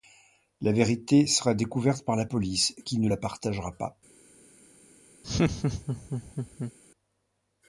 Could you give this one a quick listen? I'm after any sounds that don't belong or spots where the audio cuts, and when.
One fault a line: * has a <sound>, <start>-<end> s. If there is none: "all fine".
* has a laugh, 5.2-6.7 s